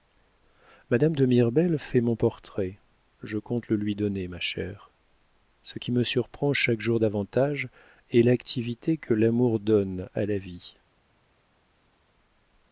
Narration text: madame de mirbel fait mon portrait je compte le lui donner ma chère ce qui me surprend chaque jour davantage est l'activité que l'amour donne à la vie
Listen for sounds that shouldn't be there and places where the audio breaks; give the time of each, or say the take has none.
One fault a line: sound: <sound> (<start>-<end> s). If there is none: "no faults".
no faults